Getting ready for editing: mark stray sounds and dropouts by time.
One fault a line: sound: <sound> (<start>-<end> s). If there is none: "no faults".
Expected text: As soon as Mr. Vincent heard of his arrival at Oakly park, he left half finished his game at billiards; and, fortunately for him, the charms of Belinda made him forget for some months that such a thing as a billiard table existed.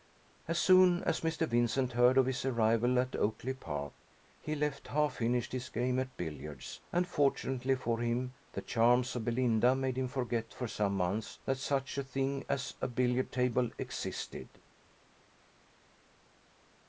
no faults